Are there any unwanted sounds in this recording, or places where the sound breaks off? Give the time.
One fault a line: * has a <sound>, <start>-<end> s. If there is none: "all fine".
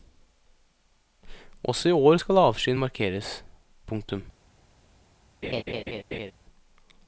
* has a laugh, 5.4-6.3 s